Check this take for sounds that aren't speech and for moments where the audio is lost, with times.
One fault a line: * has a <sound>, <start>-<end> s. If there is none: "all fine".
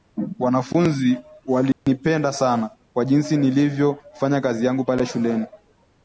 * has a dropout, 1.7-1.9 s